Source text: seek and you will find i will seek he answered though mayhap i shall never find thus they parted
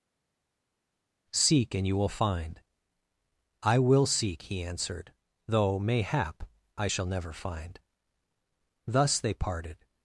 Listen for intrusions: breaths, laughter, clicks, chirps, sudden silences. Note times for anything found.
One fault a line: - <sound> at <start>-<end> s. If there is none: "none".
none